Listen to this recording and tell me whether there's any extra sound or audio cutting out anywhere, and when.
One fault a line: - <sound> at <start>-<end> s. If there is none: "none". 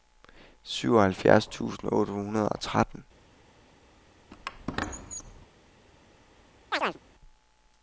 - squeak at 4.3-5.5 s
- chirp at 6.7-7.0 s